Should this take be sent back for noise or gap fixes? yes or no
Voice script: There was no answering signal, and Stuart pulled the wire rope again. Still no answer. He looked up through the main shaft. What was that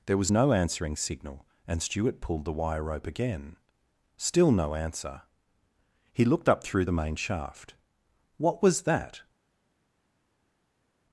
no